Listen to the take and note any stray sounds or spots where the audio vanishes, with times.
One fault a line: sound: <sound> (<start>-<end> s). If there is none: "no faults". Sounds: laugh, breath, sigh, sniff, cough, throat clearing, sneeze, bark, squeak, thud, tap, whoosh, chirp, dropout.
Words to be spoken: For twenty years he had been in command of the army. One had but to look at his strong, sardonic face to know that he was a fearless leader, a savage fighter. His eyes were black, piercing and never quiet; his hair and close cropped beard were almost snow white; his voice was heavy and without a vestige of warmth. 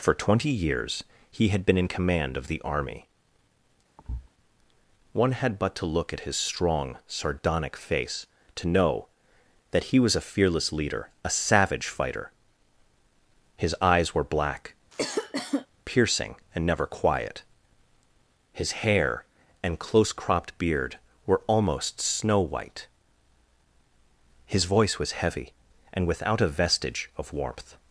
sound: thud (4.0-4.3 s)
sound: cough (14.9-15.7 s)